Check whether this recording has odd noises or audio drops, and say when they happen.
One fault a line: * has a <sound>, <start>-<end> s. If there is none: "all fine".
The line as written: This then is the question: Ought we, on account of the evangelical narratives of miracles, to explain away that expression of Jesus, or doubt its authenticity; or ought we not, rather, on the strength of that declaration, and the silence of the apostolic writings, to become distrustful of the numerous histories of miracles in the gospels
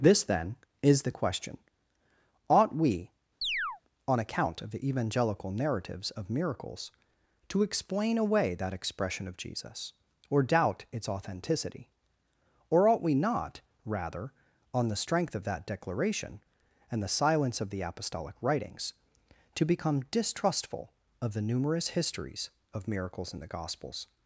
* has a chirp, 3.4-3.8 s